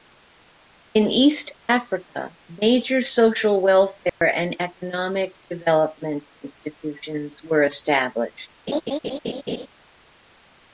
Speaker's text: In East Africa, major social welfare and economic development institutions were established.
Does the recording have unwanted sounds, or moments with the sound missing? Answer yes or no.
yes